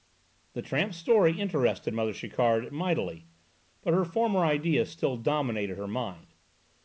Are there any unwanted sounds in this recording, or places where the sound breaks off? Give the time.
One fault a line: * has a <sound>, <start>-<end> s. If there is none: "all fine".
all fine